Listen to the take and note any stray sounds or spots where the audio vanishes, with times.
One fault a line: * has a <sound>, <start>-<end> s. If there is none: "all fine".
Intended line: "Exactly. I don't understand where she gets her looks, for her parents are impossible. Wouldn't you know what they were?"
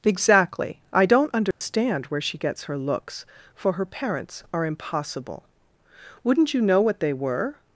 * has a dropout, 1.5-1.6 s